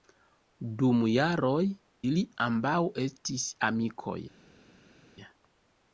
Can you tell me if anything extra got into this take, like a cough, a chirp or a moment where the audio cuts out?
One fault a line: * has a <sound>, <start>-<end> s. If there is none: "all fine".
all fine